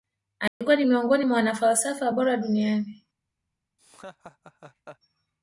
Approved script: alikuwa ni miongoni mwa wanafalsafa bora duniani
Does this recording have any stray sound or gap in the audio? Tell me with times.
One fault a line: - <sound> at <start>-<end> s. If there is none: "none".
- dropout at 0.5-0.6 s
- laugh at 3.8-5.0 s